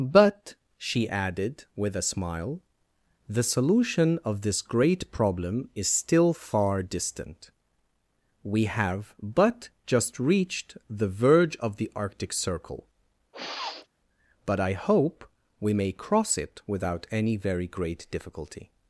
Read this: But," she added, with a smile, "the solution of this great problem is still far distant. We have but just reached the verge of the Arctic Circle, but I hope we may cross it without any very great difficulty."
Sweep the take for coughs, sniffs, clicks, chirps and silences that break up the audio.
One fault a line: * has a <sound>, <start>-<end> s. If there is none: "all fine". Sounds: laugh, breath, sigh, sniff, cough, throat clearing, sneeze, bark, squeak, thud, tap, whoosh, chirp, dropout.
* has a sniff, 13.3-13.9 s